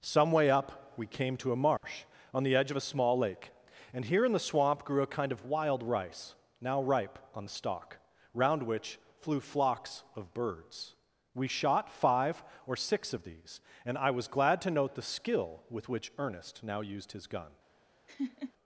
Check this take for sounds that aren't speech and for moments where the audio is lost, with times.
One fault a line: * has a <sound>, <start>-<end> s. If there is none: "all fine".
* has a dropout, 1.8-1.8 s
* has a laugh, 18.1-18.5 s